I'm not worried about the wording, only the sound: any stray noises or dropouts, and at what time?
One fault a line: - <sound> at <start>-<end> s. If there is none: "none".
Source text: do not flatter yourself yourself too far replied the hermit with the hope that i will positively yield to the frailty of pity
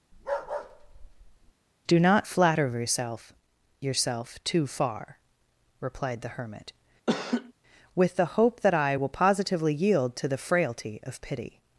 - bark at 0.1-1.5 s
- laugh at 7.1-7.5 s